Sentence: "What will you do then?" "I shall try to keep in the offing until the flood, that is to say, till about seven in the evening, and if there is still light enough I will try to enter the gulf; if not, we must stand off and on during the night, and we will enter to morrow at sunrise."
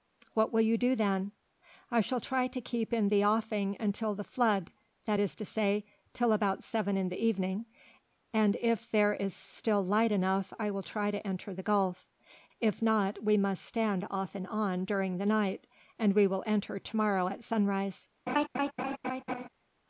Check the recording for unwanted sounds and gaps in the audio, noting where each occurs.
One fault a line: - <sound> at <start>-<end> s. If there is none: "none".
- laugh at 18.3-19.5 s